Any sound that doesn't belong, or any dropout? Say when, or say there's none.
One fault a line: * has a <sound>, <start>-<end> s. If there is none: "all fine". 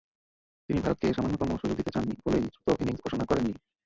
all fine